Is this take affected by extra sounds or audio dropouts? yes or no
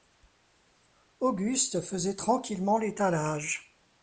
no